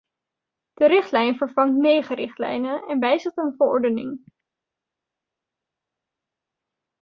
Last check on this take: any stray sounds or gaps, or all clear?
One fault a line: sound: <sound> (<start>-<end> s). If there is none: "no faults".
no faults